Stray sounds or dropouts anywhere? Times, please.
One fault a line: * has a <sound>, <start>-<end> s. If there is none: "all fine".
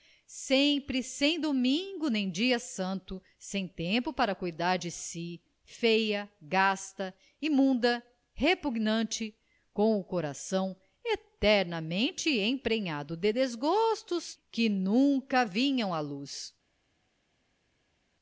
all fine